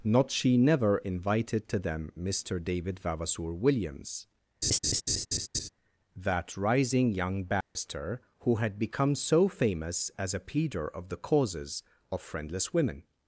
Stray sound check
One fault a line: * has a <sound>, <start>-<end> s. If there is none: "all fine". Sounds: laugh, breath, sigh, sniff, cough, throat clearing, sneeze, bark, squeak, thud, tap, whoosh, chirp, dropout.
* has a laugh, 4.6-5.7 s
* has a dropout, 7.6-7.8 s